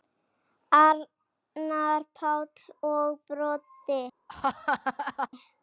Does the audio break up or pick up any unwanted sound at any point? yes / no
yes